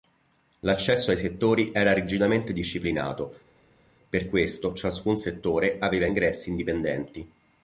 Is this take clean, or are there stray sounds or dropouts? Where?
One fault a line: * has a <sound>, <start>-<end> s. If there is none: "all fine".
all fine